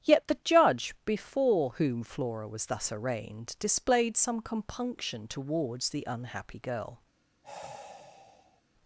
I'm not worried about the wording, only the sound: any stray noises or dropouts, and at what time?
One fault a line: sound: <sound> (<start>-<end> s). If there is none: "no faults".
sound: sigh (7.4-8.6 s)